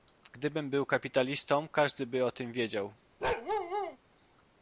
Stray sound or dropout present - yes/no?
yes